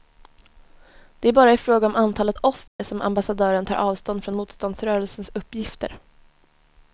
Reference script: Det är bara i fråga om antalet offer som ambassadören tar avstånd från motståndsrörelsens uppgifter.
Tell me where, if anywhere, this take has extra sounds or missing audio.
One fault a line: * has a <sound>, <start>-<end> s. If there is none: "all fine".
* has a dropout, 2.7-2.8 s